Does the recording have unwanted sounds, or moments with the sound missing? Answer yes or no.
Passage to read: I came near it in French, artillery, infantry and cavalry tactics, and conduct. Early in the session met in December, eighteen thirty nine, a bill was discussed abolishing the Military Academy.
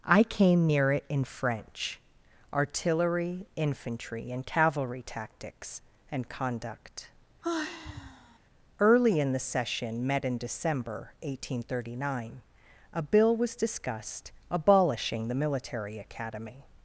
yes